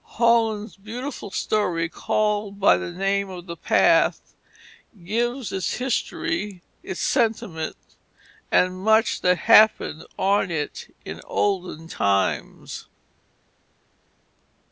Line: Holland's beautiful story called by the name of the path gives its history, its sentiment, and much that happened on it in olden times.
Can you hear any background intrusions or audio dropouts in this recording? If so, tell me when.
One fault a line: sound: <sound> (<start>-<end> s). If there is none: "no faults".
no faults